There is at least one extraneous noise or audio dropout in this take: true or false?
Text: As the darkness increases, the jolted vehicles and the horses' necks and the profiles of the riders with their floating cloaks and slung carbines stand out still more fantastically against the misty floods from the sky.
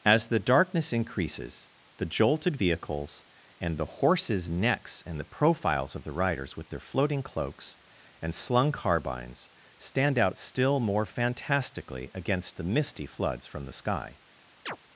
true